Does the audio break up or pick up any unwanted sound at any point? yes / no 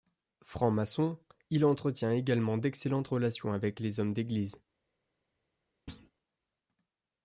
yes